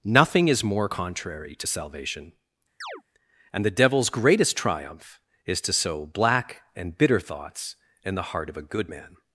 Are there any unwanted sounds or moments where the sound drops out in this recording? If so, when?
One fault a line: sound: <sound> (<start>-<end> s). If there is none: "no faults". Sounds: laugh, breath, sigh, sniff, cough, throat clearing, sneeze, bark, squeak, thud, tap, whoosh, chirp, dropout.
sound: chirp (2.8-3.0 s)